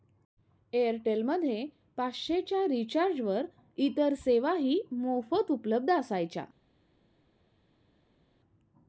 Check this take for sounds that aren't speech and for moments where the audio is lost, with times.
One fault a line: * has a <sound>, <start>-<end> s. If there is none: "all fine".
all fine